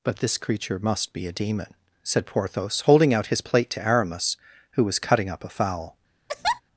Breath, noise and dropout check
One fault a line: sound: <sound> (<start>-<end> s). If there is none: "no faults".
sound: laugh (6.3-6.6 s)